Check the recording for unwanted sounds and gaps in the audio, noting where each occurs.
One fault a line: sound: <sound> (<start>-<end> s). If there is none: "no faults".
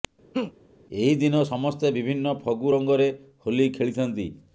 sound: laugh (0.3-0.5 s)